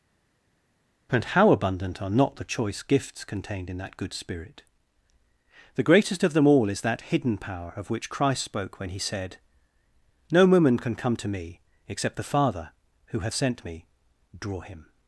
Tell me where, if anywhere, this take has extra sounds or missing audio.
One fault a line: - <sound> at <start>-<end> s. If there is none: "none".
none